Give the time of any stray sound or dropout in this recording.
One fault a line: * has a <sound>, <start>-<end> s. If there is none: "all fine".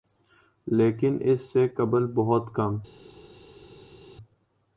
all fine